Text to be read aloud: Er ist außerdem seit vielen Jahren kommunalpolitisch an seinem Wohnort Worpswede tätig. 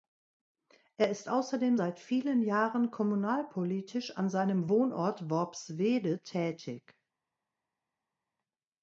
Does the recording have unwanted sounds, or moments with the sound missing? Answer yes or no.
no